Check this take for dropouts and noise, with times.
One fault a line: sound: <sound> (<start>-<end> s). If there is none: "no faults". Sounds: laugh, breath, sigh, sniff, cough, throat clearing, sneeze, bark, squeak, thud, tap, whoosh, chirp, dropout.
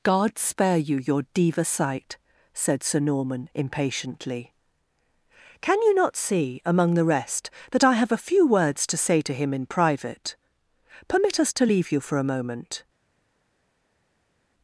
no faults